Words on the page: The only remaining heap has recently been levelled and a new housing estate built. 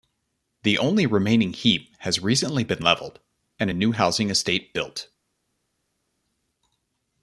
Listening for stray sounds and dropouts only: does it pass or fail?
pass